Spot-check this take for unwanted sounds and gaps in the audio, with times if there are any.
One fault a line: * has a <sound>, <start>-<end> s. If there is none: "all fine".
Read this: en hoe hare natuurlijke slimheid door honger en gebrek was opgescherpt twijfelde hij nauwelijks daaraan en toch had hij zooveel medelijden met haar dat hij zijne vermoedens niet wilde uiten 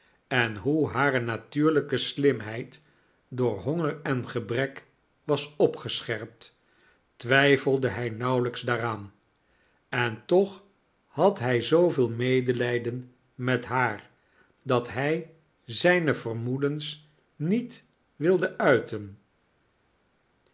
all fine